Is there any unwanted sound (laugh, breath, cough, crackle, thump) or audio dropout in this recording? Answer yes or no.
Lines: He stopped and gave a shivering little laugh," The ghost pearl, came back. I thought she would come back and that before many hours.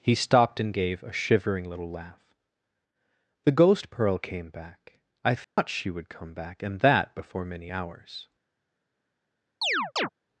yes